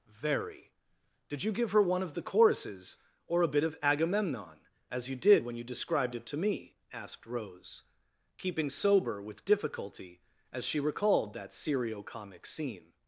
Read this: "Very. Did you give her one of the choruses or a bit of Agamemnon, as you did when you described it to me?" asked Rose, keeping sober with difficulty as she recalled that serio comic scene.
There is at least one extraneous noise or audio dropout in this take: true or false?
false